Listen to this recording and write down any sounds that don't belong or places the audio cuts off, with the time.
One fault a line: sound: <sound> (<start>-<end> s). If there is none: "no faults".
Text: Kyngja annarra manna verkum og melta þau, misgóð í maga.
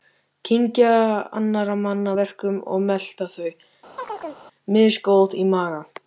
sound: chirp (4.0-4.4 s)